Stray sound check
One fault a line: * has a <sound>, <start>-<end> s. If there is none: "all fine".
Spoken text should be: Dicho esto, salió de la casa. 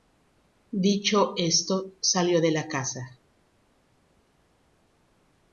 all fine